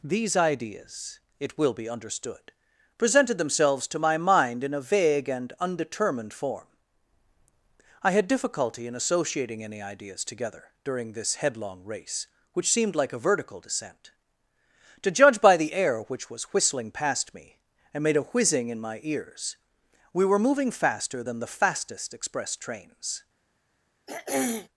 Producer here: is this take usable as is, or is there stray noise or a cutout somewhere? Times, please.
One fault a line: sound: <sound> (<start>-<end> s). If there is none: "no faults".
sound: throat clearing (24.1-24.7 s)